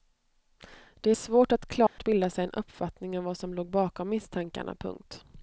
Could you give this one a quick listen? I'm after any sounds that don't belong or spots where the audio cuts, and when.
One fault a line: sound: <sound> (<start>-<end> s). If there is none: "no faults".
sound: dropout (1.9-2.0 s)